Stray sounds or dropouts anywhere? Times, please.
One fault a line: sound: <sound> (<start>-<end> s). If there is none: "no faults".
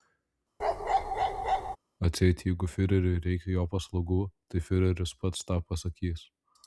sound: bark (0.6-1.8 s)